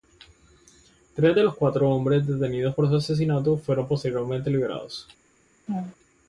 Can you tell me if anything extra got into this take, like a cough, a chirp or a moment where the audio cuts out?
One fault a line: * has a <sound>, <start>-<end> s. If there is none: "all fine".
* has a laugh, 5.7-6.0 s